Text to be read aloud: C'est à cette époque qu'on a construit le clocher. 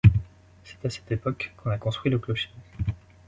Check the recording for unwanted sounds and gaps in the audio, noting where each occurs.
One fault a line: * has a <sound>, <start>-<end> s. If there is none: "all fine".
all fine